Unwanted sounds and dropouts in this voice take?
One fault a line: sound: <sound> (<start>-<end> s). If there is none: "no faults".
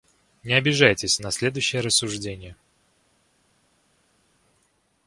no faults